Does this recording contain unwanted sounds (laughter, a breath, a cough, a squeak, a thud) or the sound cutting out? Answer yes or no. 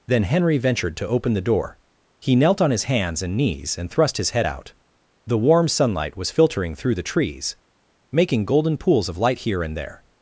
no